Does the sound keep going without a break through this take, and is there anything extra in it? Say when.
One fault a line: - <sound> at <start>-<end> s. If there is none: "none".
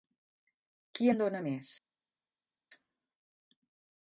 none